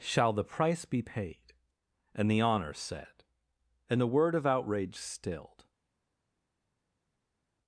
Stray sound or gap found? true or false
false